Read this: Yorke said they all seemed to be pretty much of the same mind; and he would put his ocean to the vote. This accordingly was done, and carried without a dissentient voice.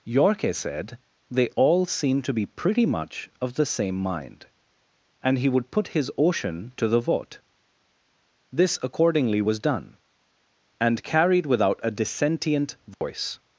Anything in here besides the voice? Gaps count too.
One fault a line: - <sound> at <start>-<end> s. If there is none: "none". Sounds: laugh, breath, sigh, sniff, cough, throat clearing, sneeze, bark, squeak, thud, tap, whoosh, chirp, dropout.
- dropout at 12.9-13.0 s